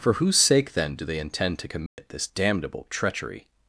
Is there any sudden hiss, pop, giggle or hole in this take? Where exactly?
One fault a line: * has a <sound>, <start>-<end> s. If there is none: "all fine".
* has a dropout, 1.9-2.0 s